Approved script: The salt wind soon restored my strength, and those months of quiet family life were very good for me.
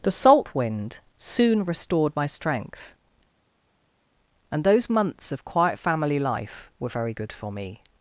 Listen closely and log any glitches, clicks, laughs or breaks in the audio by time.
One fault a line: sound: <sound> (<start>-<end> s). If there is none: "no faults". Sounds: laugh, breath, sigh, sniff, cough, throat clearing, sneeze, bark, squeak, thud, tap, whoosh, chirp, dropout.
no faults